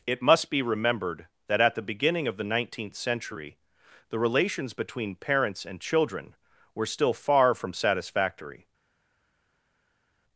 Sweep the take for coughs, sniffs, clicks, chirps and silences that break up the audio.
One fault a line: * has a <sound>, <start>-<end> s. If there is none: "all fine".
all fine